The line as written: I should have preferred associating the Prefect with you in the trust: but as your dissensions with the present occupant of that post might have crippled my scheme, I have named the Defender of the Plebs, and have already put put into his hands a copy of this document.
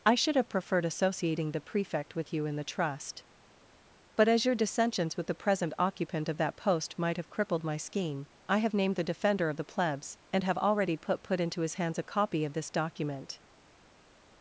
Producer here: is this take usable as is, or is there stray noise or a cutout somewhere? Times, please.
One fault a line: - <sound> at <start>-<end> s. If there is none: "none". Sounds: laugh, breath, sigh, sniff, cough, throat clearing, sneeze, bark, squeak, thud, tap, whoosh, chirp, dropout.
none